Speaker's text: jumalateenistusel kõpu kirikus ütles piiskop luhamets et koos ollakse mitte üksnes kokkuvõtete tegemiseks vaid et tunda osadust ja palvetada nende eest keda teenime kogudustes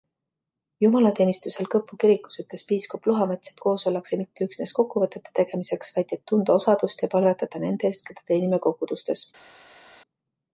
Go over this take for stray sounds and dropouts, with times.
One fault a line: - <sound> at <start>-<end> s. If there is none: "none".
none